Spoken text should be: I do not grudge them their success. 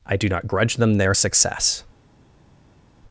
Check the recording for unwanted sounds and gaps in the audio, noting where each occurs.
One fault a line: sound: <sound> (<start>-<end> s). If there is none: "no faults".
no faults